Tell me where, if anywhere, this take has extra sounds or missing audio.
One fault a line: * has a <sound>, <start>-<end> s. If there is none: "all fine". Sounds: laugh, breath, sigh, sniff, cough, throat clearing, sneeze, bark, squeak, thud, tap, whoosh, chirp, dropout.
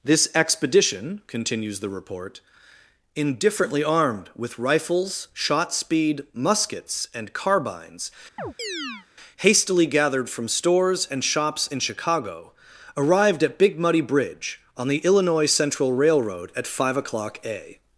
* has a chirp, 8.4-9.1 s